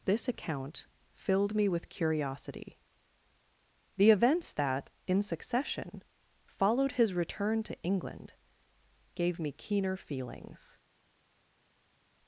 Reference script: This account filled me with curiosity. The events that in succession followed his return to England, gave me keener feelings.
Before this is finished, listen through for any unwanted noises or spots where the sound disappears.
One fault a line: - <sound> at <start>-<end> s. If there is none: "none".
none